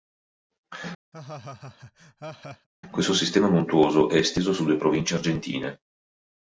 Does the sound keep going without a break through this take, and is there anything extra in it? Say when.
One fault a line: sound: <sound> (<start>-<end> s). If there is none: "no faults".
sound: laugh (1.1-2.7 s)